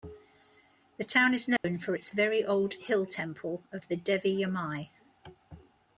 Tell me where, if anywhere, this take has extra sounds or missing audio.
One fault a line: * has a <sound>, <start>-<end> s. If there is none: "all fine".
* has a dropout, 1.6-1.6 s